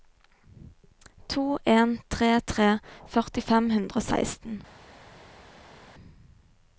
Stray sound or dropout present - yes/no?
no